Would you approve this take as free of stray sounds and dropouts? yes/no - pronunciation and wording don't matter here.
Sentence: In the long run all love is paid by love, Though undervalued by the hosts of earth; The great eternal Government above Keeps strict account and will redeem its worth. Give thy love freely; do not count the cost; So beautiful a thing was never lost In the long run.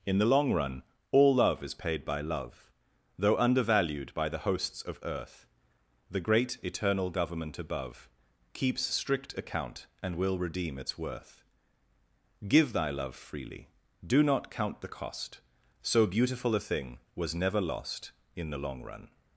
yes